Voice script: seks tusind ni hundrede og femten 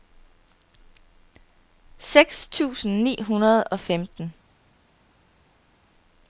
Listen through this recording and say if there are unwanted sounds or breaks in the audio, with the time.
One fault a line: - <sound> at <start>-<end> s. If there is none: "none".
none